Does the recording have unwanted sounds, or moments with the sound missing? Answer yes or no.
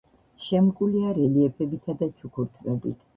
no